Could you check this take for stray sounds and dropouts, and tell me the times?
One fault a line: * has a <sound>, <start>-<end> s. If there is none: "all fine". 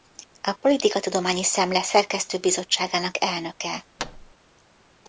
* has a thud, 4.0-4.3 s